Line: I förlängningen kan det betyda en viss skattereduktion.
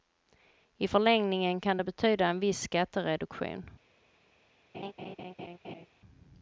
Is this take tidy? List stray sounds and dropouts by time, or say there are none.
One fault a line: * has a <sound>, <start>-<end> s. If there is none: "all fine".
* has a laugh, 4.7-5.9 s